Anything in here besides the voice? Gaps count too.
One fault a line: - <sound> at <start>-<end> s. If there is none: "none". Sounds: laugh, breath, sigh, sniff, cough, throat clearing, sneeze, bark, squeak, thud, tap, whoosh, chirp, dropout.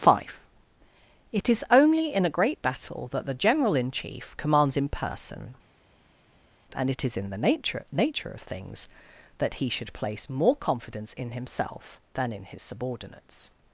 none